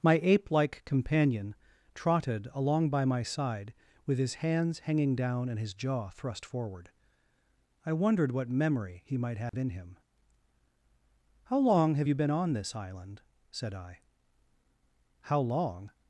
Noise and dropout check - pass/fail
fail